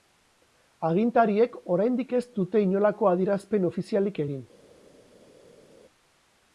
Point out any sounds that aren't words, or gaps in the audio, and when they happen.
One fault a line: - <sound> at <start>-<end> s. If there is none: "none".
none